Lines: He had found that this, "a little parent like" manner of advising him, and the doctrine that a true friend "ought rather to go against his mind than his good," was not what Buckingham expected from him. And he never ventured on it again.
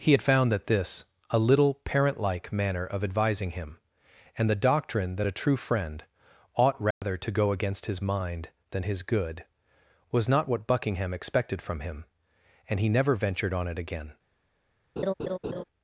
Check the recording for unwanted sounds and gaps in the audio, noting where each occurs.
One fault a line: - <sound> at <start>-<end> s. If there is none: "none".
- dropout at 6.9-7.0 s
- laugh at 15.0-15.6 s